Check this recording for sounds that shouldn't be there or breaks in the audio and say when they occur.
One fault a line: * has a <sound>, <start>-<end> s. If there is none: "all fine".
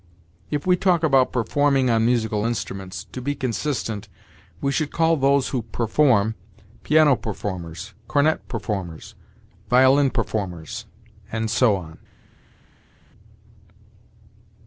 all fine